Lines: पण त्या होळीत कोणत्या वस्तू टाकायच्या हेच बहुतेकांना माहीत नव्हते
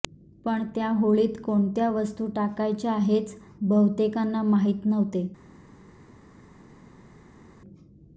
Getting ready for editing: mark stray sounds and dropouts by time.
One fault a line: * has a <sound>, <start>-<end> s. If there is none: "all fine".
all fine